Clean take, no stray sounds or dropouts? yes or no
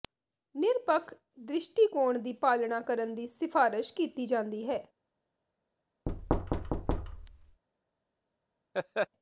no